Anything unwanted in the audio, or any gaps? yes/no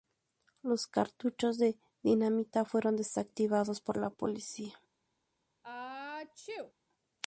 yes